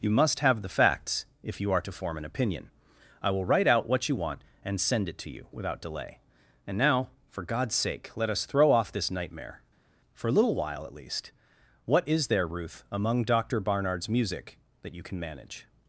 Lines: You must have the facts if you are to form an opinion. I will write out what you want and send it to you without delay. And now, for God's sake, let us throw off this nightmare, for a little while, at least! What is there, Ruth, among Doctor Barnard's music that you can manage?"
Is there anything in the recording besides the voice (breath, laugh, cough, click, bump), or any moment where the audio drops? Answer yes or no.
no